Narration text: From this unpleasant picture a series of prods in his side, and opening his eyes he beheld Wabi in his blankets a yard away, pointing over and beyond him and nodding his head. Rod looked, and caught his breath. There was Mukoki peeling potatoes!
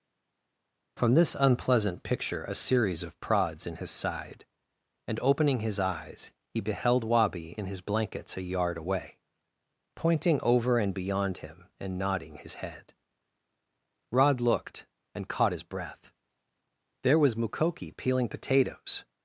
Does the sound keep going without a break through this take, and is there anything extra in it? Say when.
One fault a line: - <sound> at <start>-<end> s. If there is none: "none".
none